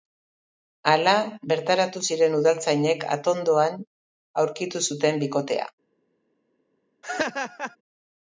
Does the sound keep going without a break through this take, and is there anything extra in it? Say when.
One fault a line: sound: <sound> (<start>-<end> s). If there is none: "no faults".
sound: laugh (7.0-7.8 s)